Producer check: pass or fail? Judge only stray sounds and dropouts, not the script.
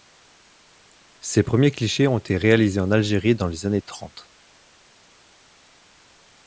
pass